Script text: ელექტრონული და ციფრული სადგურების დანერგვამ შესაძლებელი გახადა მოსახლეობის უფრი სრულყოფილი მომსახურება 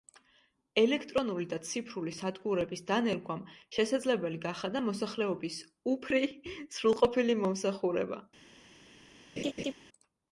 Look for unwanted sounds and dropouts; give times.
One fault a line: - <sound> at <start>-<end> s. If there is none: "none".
- laugh at 9.4-9.7 s